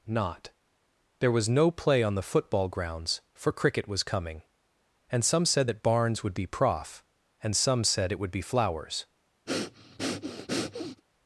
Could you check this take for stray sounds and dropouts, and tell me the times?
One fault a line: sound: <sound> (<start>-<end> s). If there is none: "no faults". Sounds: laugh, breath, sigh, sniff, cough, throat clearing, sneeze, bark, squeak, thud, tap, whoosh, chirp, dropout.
sound: breath (9.5-11.0 s)